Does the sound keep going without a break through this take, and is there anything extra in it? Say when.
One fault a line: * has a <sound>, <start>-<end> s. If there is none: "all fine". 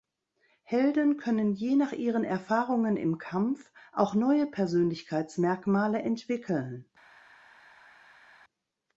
all fine